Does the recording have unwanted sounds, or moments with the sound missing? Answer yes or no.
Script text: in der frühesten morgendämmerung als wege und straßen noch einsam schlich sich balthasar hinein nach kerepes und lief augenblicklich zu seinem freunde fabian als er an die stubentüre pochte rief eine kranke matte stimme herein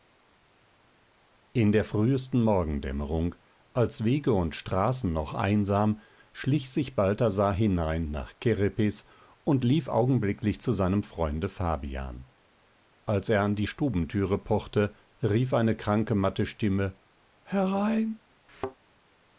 yes